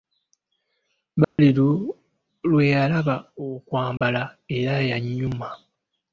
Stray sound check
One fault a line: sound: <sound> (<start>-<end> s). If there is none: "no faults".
sound: dropout (1.2-1.4 s)
sound: dropout (4.0-4.0 s)